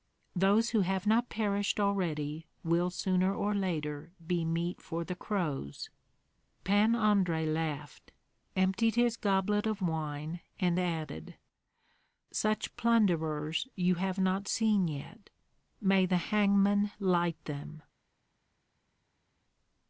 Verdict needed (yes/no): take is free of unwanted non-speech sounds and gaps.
yes